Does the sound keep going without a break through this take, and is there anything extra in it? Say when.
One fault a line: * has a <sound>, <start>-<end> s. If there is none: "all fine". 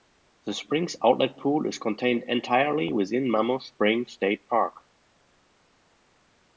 all fine